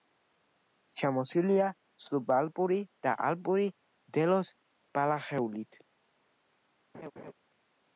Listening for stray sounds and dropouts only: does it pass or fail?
fail